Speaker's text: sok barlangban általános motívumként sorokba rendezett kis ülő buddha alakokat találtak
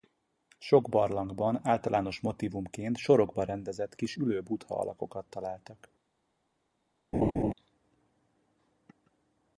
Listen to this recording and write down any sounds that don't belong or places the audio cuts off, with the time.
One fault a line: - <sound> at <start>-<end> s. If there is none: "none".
- laugh at 7.1-7.5 s